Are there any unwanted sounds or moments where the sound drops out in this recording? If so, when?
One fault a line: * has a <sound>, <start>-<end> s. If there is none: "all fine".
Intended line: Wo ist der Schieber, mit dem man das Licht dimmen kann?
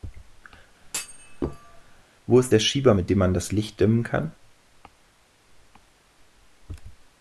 * has a thud, 0.8-2.0 s